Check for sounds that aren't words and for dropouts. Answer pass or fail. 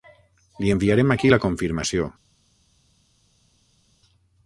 pass